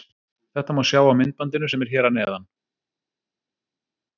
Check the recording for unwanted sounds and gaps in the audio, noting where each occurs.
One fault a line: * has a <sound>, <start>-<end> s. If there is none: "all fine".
all fine